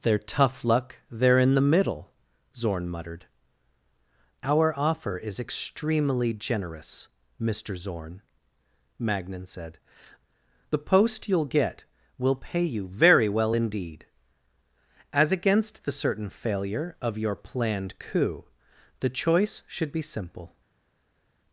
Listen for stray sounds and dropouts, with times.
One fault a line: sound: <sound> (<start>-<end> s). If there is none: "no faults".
no faults